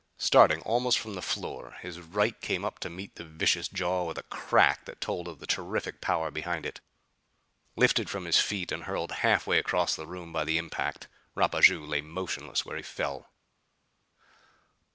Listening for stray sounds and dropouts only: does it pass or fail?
pass